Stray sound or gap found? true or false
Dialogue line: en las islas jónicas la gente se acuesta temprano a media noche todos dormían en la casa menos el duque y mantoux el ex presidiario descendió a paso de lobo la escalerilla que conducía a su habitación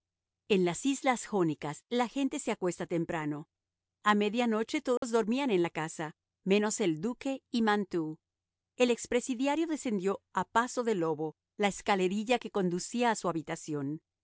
true